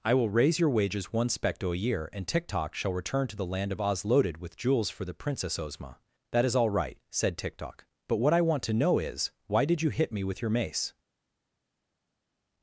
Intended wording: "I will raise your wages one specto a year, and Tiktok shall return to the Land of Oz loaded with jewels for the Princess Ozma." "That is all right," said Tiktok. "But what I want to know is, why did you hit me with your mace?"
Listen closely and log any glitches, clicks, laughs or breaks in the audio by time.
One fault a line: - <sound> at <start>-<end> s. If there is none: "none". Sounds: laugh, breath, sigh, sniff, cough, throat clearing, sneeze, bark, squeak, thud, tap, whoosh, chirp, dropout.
none